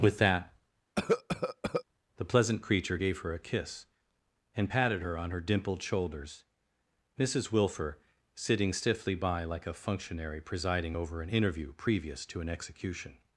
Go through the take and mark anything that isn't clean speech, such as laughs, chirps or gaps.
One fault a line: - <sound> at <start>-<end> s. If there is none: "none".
- cough at 1.0-1.8 s